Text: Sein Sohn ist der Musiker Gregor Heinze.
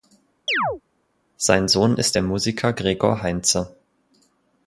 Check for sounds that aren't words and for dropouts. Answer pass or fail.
fail